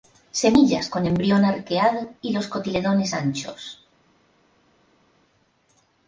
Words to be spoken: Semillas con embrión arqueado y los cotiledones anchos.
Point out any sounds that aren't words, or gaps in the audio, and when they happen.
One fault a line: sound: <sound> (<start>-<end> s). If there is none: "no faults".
no faults